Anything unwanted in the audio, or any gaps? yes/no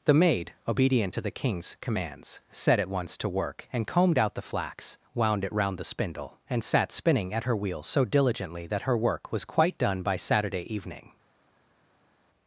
no